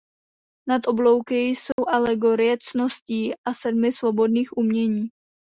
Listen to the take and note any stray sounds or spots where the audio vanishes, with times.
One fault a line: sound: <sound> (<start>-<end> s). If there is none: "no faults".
sound: dropout (1.7-1.8 s)